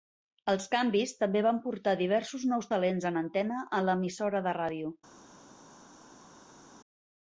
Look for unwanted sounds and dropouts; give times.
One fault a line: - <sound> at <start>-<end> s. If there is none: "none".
none